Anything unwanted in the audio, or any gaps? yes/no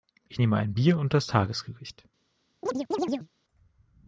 yes